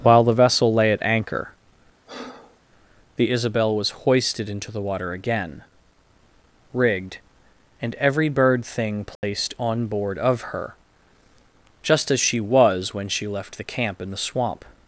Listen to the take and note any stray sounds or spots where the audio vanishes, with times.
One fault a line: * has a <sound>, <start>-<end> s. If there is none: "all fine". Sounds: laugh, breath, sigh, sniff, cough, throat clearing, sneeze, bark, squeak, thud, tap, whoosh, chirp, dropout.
* has a breath, 2.1-2.6 s
* has a dropout, 9.2-9.2 s